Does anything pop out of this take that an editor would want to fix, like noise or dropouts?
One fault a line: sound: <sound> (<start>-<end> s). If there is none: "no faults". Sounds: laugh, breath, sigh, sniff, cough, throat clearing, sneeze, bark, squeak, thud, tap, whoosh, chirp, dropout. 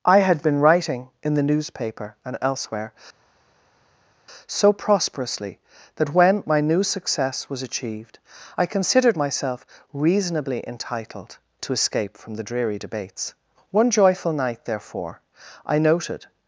no faults